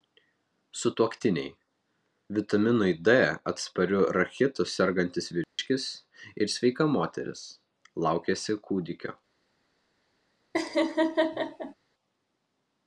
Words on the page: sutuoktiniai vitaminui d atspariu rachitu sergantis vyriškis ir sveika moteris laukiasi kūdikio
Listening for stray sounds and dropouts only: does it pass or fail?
fail